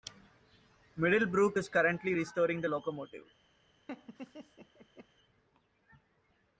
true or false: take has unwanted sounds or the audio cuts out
true